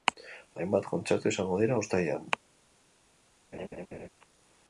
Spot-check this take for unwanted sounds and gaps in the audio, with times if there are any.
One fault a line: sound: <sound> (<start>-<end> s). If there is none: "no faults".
sound: laugh (3.5-4.1 s)